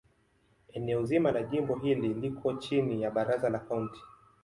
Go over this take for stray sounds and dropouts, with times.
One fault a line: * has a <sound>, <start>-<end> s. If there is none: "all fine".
all fine